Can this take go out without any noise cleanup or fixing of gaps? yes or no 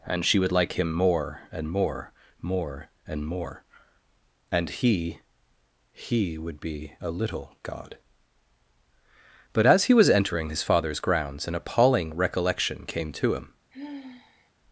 no